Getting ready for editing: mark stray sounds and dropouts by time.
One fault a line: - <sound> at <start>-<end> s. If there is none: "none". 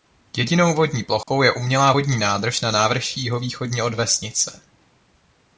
- dropout at 1.2-1.3 s